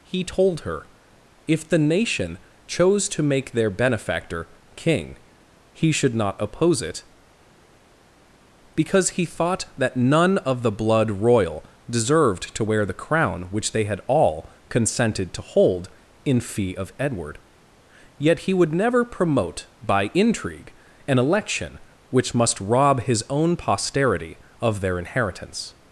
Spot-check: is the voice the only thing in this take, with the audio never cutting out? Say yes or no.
yes